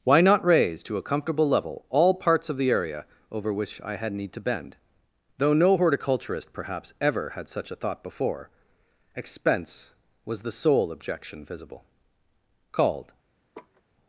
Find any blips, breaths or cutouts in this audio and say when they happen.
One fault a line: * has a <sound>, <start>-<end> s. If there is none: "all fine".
* has a laugh, 13.5-13.8 s